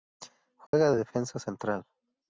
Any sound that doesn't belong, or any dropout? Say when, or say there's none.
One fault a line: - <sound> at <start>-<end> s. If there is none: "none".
- dropout at 0.7-0.7 s